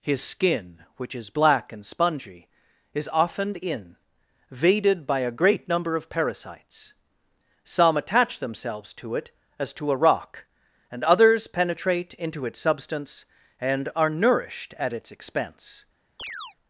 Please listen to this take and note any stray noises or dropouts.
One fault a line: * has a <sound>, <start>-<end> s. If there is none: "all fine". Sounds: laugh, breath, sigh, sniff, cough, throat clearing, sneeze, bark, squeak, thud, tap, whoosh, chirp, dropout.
* has a chirp, 16.2-16.5 s